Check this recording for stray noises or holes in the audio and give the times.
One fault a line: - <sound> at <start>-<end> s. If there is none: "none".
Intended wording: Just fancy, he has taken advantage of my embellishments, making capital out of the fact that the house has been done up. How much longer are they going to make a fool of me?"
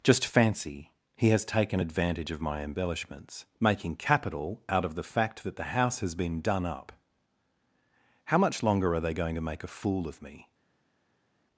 none